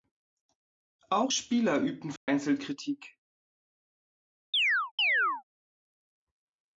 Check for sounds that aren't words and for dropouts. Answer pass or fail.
fail